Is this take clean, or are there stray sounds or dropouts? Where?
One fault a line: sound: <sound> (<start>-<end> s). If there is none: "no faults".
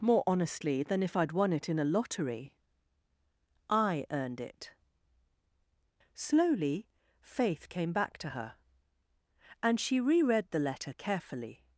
no faults